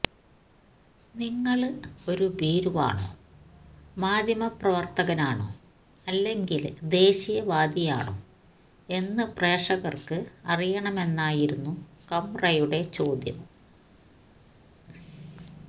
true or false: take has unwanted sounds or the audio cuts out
false